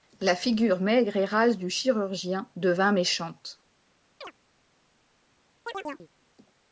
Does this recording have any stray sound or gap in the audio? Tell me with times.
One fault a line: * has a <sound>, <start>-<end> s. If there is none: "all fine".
* has a chirp, 4.2-4.3 s
* has a chirp, 5.7-6.1 s